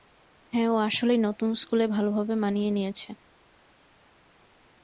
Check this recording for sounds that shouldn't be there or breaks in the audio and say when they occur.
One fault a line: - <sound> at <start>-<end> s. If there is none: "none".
none